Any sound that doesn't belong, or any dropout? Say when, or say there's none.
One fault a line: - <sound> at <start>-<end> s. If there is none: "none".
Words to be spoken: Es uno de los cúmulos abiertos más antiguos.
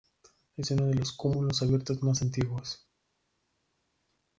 none